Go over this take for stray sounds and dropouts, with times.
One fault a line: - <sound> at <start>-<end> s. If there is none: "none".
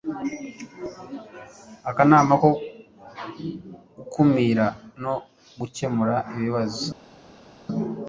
none